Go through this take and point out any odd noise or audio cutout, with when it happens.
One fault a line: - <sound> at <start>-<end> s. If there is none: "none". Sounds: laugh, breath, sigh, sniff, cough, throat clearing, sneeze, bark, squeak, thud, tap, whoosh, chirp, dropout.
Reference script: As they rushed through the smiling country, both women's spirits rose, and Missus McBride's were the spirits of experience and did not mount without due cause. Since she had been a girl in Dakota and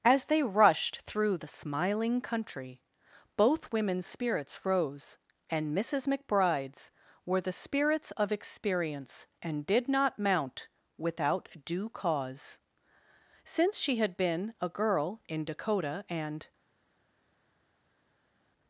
none